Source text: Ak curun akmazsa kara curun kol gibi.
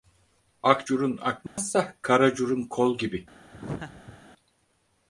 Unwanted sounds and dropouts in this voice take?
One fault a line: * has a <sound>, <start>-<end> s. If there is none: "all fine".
* has a dropout, 1.5-1.6 s
* has a laugh, 3.5-4.2 s